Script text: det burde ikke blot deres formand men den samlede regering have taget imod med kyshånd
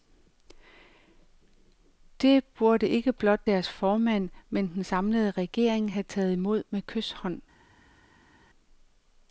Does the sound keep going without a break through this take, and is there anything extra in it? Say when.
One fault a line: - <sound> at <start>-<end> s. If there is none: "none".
none